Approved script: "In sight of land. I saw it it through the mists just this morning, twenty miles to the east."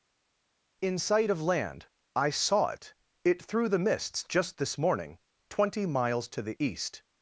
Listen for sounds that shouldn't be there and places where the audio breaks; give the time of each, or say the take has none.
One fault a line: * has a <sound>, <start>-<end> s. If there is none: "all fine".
all fine